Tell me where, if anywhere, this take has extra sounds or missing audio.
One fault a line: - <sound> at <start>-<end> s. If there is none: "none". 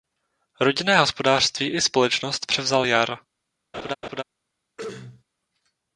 - laugh at 3.7-4.2 s
- throat clearing at 4.8-5.2 s